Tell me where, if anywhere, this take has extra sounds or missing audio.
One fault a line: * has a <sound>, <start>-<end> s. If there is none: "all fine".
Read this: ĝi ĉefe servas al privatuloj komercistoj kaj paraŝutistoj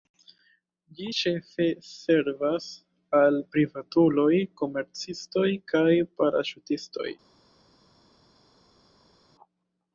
all fine